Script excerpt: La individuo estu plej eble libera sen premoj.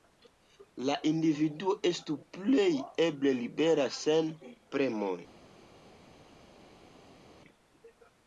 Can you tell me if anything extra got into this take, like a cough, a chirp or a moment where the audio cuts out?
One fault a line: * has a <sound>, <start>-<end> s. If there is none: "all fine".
all fine